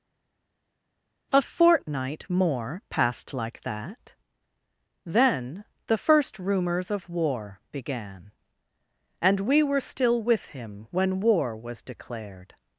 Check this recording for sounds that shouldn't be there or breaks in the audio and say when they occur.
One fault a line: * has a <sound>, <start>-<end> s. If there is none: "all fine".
all fine